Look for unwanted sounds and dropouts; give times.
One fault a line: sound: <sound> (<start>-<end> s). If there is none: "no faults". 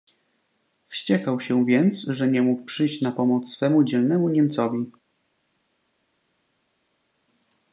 no faults